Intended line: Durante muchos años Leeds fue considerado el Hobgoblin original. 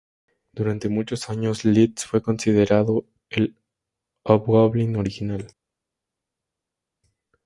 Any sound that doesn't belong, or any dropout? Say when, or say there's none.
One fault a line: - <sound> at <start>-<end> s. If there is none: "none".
none